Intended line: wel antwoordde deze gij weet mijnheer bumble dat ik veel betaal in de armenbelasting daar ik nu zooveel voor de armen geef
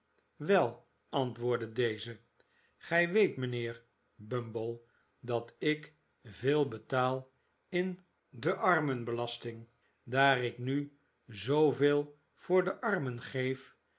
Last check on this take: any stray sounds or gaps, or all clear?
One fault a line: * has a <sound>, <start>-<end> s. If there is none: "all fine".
all fine